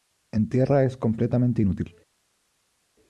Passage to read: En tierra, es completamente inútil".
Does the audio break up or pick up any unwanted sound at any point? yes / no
no